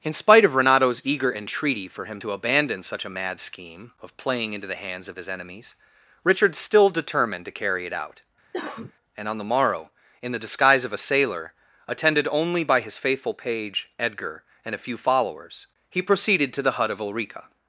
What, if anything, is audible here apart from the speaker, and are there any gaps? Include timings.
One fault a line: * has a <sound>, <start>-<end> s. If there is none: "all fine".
* has a cough, 8.5-8.9 s